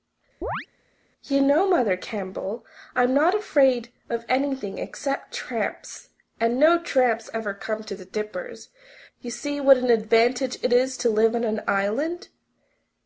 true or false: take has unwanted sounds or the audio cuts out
true